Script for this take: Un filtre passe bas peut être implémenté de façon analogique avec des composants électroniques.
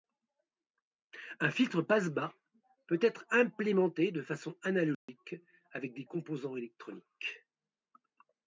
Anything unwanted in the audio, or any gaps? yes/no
yes